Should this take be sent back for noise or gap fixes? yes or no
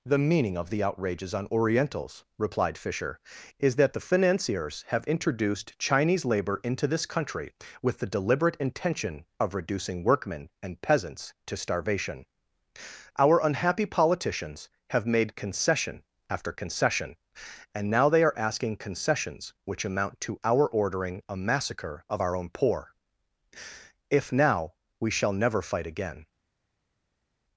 no